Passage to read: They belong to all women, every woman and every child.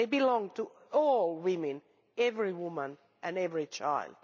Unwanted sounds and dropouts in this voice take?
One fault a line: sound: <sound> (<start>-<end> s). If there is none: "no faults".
no faults